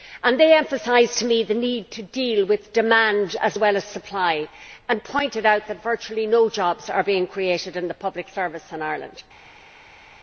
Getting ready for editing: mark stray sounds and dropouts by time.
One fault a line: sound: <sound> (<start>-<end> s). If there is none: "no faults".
no faults